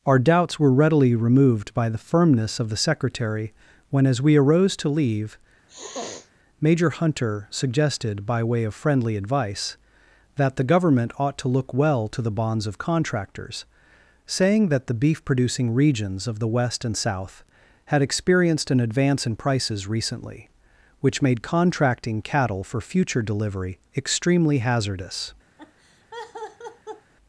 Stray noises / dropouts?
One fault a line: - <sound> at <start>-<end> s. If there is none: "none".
- sniff at 5.7-6.3 s
- laugh at 25.6-27.1 s